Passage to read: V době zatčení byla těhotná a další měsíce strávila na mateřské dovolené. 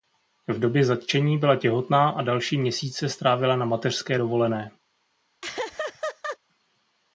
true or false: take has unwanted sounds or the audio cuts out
true